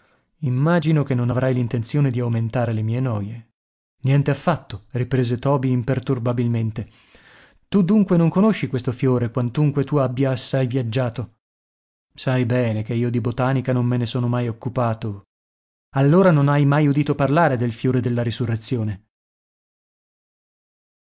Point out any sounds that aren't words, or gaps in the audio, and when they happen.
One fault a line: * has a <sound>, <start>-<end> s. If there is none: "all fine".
all fine